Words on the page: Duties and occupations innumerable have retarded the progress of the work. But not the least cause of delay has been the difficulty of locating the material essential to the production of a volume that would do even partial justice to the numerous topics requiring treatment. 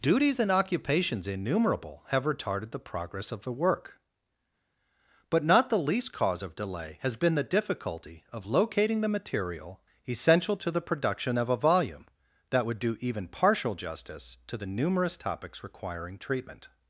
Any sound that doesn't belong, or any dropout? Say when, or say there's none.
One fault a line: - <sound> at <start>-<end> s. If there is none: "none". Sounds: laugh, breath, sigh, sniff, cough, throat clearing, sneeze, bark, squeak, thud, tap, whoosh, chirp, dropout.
none